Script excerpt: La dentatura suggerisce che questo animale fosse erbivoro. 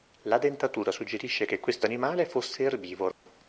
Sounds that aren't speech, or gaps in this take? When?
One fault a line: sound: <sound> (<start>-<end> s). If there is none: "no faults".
sound: dropout (3.1-3.3 s)